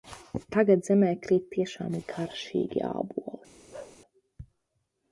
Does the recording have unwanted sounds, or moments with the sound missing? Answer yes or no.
yes